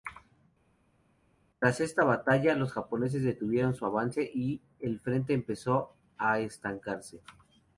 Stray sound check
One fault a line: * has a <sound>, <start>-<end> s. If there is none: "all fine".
all fine